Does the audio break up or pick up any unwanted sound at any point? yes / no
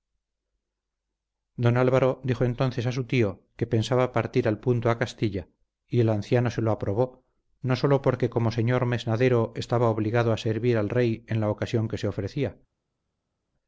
no